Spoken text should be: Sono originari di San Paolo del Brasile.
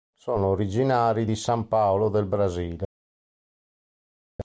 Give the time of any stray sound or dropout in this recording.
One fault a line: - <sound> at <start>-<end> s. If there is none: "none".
none